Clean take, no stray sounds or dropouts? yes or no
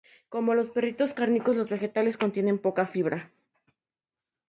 yes